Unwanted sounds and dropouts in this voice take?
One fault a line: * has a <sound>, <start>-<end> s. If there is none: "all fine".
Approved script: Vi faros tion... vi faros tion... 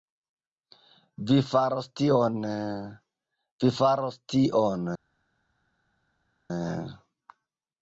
all fine